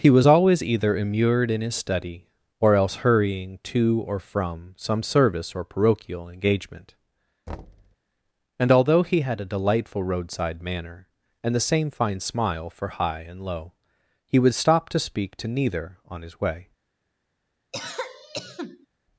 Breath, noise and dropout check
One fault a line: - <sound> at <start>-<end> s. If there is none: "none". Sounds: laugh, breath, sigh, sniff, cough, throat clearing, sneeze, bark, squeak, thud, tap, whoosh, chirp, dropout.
- thud at 7.5-8.0 s
- cough at 17.7-18.9 s